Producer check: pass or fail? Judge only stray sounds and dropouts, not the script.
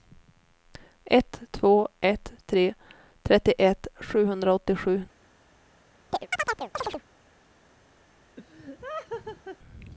fail